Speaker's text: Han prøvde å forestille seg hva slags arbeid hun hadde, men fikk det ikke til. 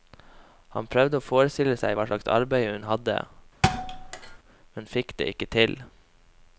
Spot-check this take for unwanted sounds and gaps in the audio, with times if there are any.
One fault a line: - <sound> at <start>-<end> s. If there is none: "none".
- thud at 3.6-4.4 s